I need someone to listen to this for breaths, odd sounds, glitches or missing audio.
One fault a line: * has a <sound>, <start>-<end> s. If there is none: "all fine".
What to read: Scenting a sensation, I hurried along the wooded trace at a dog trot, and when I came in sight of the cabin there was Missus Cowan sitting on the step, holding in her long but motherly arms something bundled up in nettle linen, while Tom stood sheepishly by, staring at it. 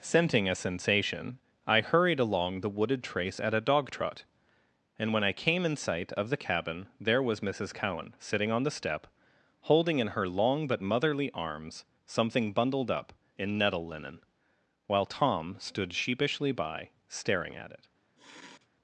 * has a sniff, 18.2-18.7 s